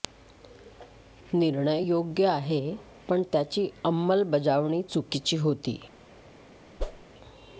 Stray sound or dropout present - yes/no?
yes